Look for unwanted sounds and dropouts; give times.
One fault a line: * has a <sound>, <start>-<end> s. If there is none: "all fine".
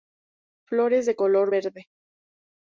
all fine